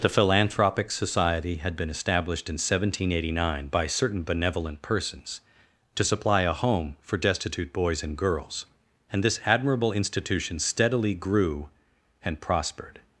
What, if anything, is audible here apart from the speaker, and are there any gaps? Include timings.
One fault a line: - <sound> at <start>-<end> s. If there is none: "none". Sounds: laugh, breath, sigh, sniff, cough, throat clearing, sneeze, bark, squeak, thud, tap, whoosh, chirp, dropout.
none